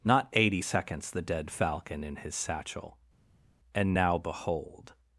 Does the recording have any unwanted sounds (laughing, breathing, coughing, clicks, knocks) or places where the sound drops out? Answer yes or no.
no